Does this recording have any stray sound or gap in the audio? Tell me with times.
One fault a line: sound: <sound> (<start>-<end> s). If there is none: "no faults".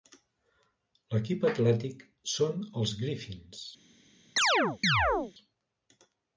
sound: chirp (4.4-5.3 s)